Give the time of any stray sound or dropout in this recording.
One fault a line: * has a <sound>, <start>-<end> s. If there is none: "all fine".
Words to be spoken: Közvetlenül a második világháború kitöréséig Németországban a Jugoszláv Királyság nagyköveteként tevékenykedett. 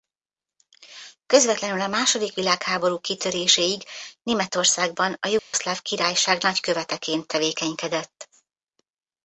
* has a dropout, 5.4-5.5 s